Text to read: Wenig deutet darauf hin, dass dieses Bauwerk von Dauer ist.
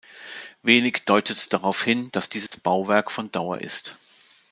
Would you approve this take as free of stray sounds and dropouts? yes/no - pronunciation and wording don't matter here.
no